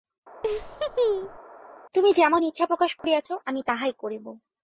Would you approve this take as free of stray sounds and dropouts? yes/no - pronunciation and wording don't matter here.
no